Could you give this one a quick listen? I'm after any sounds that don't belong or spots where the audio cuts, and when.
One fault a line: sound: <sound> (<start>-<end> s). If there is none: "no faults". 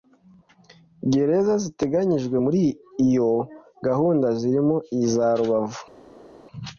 no faults